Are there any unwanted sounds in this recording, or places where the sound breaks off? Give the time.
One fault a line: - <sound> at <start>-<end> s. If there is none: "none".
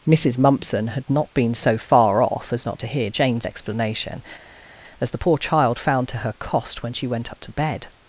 none